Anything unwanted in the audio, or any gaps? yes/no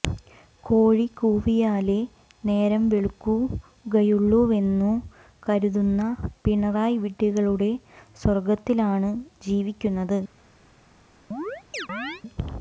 yes